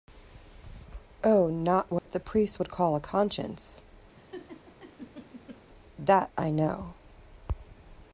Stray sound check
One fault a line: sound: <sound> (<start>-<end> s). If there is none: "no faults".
sound: dropout (2.0-2.1 s)
sound: laugh (4.2-5.6 s)